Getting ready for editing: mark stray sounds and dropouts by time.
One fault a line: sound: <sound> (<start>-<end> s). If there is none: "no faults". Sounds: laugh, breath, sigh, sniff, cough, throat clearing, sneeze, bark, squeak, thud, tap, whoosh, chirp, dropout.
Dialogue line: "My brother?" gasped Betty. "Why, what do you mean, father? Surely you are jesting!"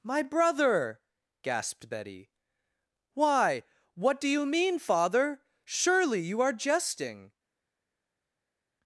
no faults